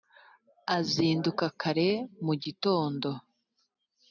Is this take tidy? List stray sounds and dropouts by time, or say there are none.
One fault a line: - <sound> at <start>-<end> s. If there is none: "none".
none